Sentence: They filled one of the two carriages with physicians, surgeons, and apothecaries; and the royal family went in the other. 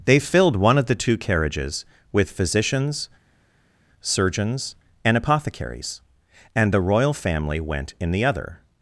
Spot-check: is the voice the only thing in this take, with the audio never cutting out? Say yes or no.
yes